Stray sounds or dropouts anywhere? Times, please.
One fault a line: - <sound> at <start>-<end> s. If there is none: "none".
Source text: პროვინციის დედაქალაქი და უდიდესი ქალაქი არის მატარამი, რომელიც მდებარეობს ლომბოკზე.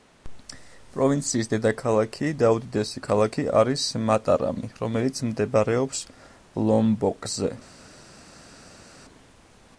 none